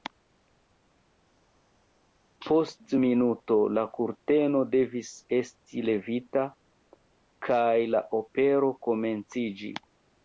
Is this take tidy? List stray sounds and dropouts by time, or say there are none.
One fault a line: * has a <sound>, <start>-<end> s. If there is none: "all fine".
all fine